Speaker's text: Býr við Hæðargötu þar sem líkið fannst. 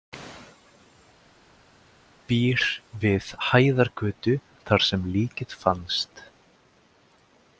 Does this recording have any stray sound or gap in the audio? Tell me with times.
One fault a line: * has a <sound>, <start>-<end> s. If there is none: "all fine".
all fine